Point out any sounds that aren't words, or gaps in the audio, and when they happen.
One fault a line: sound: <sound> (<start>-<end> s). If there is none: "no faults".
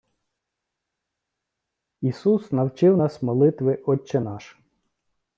no faults